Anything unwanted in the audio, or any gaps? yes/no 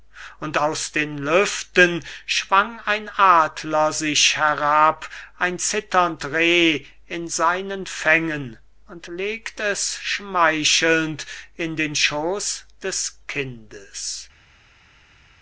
no